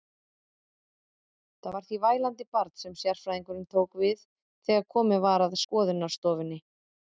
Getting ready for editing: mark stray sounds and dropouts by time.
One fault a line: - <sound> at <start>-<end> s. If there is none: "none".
none